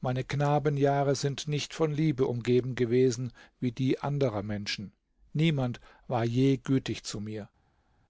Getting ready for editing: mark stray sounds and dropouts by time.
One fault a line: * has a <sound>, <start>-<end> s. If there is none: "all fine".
all fine